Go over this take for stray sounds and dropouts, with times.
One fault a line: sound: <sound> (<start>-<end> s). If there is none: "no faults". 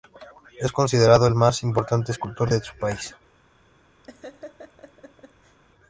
sound: laugh (4.0-5.6 s)